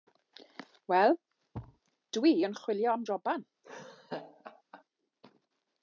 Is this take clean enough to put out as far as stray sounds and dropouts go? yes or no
no